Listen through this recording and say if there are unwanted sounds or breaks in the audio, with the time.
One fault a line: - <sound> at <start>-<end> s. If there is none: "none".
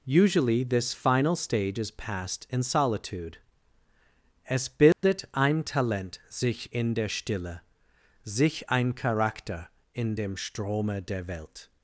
- dropout at 4.9-5.0 s